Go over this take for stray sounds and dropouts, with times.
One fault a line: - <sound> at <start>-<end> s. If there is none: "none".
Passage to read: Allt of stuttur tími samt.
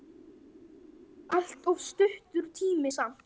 none